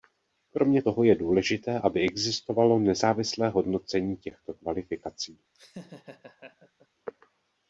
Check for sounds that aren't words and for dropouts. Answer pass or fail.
fail